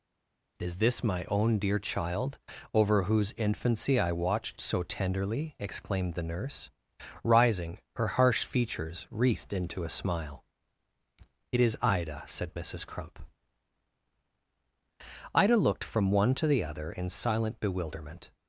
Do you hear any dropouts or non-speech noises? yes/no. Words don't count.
no